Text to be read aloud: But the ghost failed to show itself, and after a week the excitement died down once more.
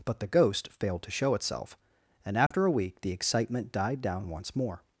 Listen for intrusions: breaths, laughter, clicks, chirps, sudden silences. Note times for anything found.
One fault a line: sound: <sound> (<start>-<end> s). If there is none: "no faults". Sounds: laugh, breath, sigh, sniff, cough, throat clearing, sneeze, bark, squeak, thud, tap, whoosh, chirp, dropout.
sound: dropout (2.5-2.5 s)